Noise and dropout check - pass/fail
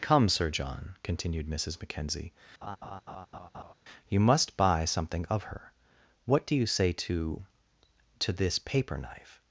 fail